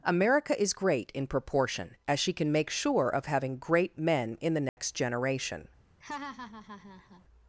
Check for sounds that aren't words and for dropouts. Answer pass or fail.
fail